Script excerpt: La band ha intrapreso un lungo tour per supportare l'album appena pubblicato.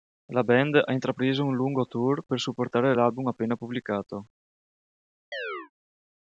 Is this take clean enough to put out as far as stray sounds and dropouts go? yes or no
no